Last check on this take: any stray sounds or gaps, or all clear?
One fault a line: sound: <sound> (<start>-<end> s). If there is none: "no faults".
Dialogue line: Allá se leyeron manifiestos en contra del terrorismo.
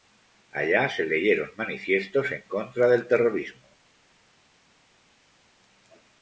no faults